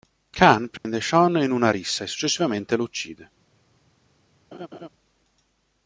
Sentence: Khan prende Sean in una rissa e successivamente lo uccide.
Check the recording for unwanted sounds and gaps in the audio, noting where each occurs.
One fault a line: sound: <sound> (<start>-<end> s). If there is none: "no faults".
sound: dropout (0.8-0.9 s)
sound: laugh (4.5-4.9 s)